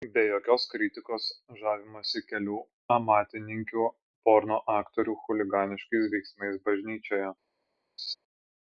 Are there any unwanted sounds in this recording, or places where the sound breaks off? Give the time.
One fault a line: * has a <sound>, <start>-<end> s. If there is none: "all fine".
* has a laugh, 8.0-8.2 s